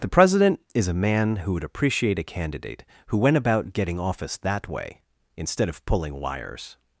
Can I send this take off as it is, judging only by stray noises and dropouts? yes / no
yes